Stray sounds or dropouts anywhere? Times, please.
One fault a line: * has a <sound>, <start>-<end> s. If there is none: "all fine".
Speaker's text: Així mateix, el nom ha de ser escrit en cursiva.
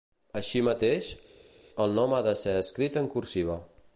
all fine